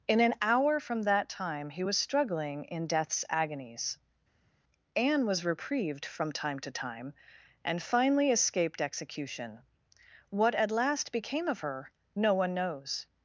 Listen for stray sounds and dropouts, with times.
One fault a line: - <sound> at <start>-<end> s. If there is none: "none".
none